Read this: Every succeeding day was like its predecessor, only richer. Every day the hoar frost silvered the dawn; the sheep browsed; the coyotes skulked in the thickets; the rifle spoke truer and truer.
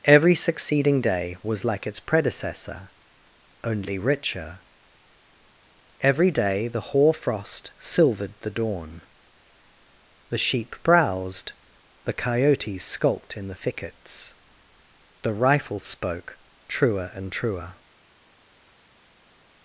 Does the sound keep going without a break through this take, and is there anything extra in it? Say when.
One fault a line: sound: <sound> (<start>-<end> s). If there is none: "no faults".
no faults